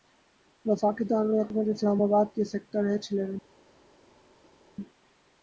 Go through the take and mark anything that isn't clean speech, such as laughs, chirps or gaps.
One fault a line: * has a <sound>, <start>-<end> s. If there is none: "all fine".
all fine